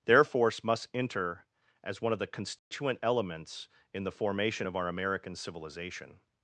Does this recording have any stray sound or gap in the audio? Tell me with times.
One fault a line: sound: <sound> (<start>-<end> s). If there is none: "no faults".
sound: dropout (2.6-2.7 s)